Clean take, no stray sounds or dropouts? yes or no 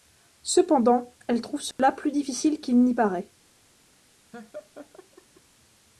no